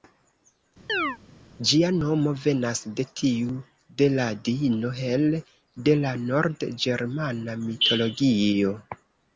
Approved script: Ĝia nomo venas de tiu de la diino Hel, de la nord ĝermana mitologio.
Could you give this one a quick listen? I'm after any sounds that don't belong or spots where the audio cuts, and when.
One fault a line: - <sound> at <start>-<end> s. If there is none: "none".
- chirp at 0.9-1.2 s